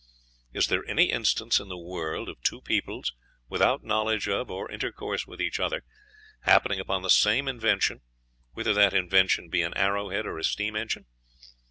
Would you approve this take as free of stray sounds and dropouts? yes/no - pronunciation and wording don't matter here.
yes